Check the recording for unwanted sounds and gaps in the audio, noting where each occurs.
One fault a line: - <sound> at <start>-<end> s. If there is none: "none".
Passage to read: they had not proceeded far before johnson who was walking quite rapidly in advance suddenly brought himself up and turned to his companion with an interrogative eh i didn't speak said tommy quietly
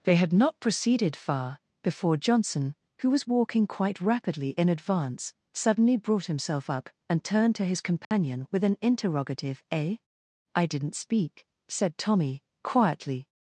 - dropout at 8.0-8.1 s